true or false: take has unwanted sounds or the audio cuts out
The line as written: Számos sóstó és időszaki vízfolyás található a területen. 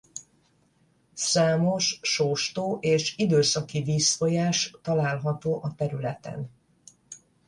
false